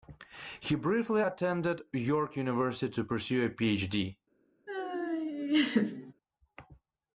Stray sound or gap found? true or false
true